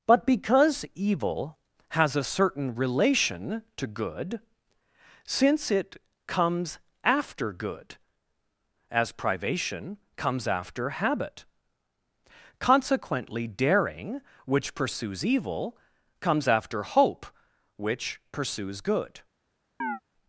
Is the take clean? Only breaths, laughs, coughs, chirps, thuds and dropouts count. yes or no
no